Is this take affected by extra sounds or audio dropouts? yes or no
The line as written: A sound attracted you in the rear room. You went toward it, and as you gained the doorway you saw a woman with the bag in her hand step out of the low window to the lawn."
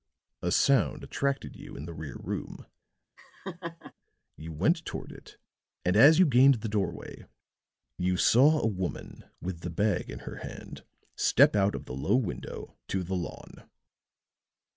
yes